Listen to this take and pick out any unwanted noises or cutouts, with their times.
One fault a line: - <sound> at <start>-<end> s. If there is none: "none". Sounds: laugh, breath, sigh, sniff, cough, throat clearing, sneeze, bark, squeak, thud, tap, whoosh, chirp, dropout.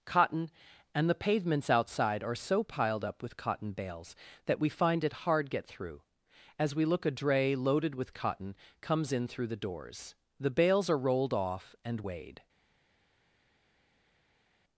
none